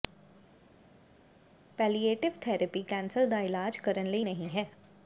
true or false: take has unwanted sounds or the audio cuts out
false